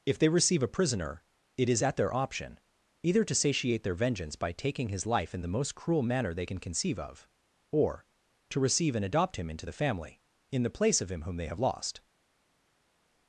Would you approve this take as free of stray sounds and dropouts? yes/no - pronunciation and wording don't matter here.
yes